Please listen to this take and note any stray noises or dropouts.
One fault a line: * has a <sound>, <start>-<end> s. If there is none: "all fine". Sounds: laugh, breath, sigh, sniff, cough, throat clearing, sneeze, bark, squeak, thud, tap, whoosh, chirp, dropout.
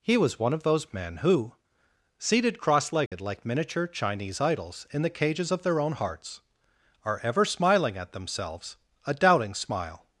* has a dropout, 3.1-3.1 s